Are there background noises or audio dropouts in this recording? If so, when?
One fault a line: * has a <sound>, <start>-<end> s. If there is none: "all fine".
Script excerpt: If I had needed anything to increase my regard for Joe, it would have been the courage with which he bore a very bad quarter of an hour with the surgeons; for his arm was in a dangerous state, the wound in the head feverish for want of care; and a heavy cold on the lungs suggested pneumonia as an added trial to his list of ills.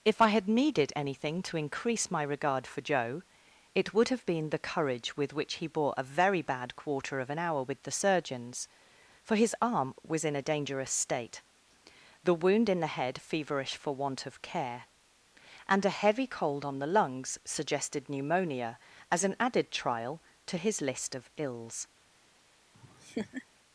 * has a laugh, 22.7-23.5 s